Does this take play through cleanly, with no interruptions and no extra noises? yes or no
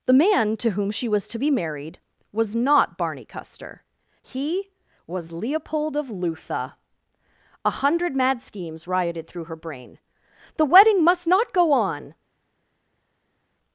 yes